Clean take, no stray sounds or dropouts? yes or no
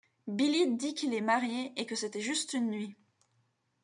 yes